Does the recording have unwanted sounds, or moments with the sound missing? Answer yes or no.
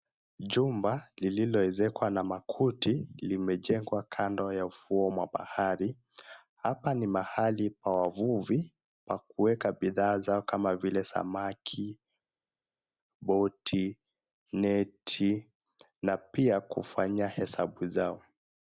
no